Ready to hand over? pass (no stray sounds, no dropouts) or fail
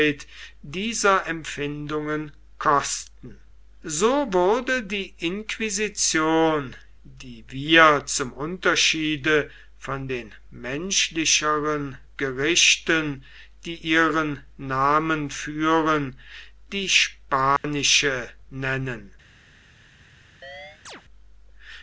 fail